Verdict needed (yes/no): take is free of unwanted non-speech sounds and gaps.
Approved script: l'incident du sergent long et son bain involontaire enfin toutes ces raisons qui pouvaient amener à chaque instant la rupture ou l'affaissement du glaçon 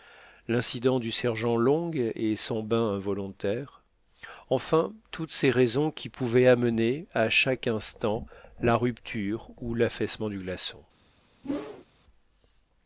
no